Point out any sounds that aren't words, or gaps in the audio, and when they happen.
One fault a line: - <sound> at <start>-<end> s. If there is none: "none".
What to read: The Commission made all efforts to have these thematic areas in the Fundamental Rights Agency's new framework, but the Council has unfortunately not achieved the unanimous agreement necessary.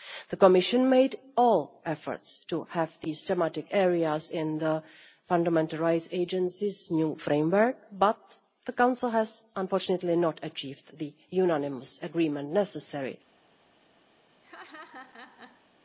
- laugh at 14.4-15.7 s